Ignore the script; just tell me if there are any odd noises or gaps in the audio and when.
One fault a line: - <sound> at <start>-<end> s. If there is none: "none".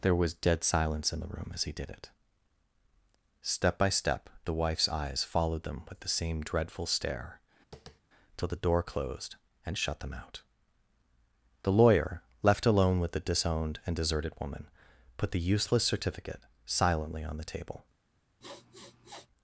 - tap at 7.7-8.0 s
- sniff at 18.4-19.3 s